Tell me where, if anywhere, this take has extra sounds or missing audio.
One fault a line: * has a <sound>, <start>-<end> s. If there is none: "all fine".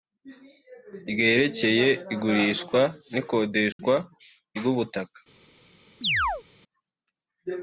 * has a dropout, 3.7-3.8 s
* has a chirp, 6.0-6.4 s